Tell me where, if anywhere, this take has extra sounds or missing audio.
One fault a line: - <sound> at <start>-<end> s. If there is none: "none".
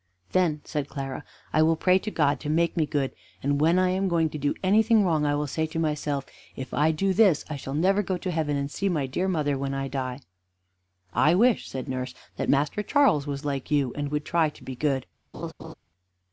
- laugh at 15.3-15.7 s